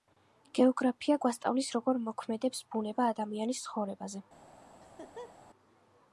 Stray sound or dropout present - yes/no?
yes